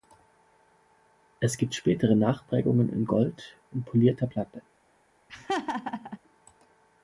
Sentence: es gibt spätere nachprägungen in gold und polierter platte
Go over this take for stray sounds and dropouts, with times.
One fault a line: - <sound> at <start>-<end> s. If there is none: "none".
- laugh at 5.3-6.2 s